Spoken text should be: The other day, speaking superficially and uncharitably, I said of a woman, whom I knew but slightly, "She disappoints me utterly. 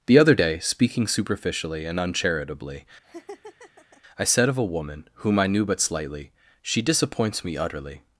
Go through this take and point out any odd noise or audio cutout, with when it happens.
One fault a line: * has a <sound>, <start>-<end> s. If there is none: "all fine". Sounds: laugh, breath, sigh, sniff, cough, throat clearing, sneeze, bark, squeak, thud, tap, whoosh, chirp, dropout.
* has a laugh, 3.0-4.0 s